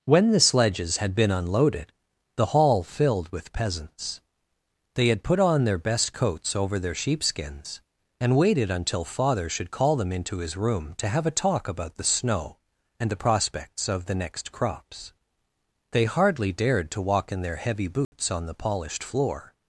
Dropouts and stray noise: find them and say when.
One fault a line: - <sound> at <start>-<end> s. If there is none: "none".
- dropout at 18.0-18.1 s